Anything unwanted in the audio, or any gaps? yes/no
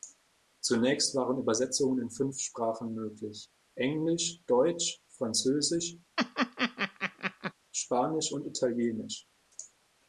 yes